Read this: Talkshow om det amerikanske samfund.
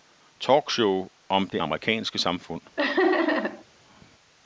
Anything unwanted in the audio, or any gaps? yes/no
yes